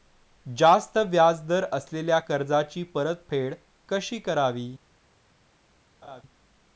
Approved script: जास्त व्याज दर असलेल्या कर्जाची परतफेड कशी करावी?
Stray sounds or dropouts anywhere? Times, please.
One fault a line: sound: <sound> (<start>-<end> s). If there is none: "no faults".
sound: laugh (6.0-6.2 s)